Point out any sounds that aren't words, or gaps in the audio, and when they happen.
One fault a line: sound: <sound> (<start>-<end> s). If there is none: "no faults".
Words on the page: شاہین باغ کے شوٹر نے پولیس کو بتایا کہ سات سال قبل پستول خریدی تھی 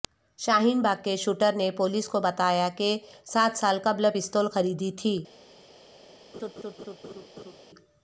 sound: laugh (6.3-7.6 s)